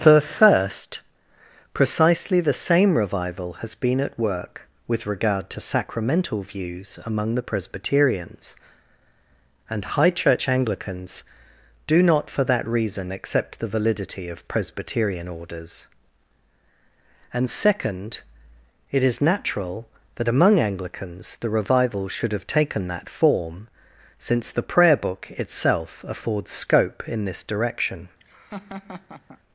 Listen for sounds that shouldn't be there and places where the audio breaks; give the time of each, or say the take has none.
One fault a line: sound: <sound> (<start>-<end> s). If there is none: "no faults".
sound: laugh (28.2-29.4 s)